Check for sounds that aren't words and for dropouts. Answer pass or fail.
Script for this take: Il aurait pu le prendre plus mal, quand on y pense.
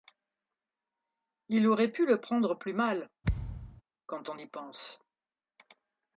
fail